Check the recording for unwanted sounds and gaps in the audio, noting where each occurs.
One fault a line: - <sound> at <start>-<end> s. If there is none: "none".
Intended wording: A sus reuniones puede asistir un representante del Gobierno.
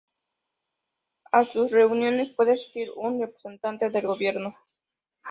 none